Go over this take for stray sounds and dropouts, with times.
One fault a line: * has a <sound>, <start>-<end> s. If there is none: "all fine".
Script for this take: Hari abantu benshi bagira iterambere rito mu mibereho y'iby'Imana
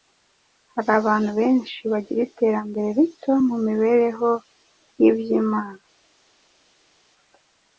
all fine